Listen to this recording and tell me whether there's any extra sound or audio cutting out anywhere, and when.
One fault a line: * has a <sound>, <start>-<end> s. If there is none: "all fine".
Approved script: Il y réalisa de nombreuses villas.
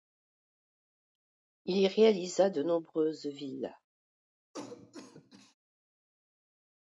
* has a cough, 4.5-5.5 s